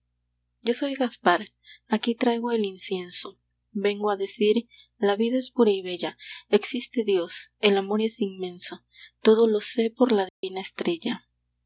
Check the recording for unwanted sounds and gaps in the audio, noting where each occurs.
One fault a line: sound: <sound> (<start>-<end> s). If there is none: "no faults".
sound: dropout (10.3-10.4 s)